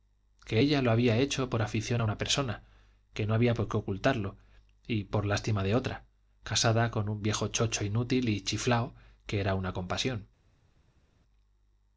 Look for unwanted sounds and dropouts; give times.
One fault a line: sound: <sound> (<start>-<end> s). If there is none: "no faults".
no faults